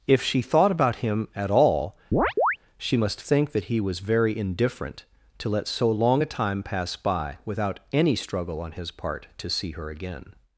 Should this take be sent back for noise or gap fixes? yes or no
yes